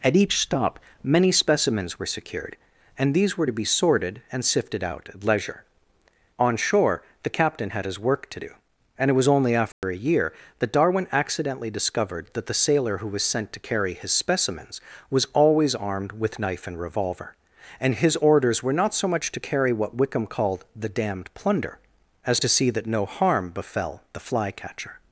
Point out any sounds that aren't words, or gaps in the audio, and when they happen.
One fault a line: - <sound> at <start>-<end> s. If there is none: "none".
- dropout at 9.7-9.8 s